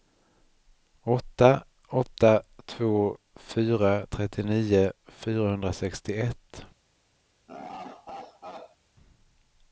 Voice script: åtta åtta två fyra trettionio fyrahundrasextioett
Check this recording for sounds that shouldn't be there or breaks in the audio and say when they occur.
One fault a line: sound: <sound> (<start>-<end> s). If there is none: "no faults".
sound: laugh (7.5-8.8 s)